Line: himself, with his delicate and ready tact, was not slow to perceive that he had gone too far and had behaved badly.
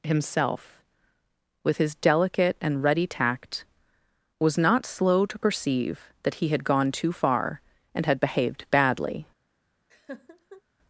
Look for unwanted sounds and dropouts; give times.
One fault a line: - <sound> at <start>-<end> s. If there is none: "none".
- laugh at 9.9-10.6 s